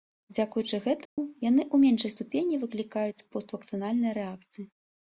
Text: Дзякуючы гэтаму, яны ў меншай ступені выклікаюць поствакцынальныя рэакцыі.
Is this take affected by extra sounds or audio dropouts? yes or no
yes